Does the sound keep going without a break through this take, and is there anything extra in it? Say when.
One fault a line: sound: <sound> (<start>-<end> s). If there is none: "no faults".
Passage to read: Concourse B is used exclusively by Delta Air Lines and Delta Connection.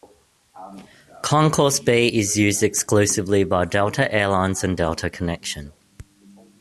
no faults